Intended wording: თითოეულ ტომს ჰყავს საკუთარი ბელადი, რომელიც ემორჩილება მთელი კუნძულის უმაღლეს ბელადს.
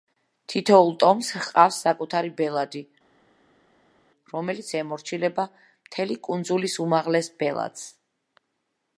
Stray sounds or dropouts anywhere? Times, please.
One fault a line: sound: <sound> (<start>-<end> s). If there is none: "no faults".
no faults